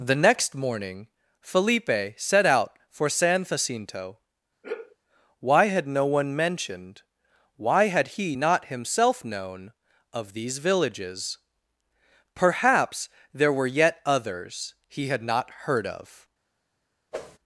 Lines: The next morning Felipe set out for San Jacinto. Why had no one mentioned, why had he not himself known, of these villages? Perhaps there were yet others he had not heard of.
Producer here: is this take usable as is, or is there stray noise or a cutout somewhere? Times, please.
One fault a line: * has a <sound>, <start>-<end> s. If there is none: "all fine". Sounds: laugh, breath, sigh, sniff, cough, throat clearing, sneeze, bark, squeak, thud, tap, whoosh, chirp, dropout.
* has a sigh, 4.6-5.0 s
* has a whoosh, 17.1-17.4 s